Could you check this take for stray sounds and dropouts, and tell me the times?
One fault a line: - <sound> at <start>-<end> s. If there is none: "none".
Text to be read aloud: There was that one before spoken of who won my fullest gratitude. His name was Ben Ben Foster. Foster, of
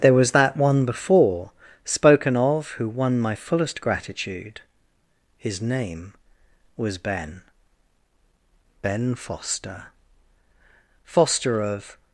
none